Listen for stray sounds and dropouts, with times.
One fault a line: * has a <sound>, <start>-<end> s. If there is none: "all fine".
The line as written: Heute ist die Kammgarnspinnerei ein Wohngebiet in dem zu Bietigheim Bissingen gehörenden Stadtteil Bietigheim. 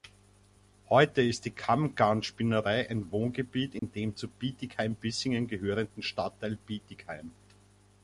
* has a dropout, 3.8-3.8 s